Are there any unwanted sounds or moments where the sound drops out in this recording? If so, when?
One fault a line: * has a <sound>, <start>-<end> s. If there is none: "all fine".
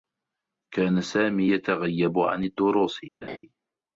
* has a laugh, 3.2-3.4 s